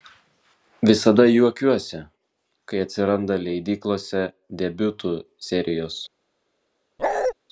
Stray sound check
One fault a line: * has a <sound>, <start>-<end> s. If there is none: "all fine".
* has a bark, 7.0-7.3 s